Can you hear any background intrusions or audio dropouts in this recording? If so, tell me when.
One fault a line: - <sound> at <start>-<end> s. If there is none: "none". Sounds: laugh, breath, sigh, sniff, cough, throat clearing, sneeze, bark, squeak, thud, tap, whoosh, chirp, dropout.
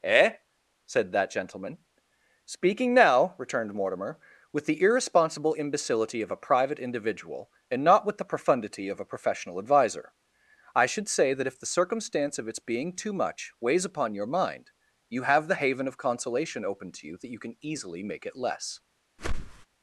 - whoosh at 19.2-19.7 s